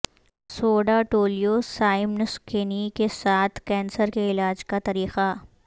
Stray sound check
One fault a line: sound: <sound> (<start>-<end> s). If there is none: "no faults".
no faults